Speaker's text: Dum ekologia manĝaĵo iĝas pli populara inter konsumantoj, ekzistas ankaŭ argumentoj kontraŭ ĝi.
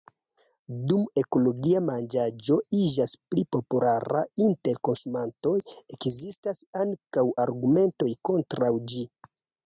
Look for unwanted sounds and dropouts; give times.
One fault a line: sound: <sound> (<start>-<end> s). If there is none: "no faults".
no faults